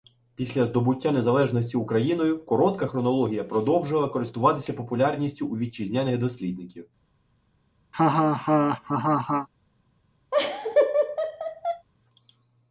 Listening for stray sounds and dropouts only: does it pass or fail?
fail